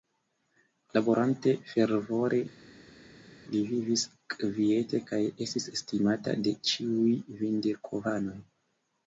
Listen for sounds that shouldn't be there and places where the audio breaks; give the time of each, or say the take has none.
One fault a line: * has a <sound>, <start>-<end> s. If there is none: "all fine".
all fine